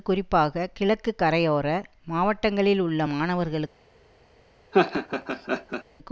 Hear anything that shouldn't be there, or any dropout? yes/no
yes